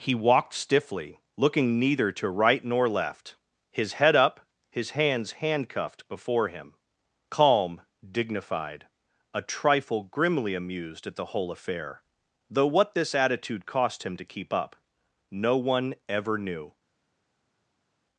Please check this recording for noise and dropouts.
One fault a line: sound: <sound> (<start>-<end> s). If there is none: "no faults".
no faults